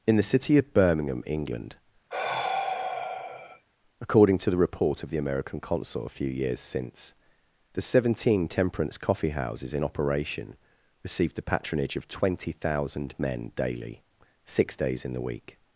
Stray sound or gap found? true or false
true